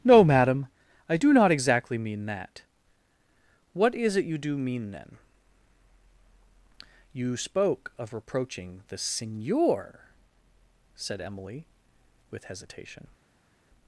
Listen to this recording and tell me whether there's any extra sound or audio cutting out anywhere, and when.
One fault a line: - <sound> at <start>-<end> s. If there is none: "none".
none